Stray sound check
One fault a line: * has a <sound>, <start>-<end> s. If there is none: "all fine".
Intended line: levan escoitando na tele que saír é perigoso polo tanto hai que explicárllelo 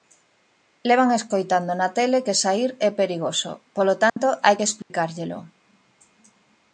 * has a dropout, 4.1-4.2 s
* has a dropout, 4.8-4.9 s